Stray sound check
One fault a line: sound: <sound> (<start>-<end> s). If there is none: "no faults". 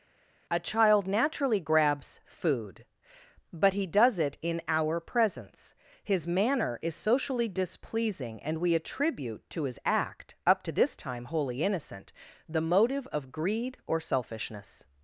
no faults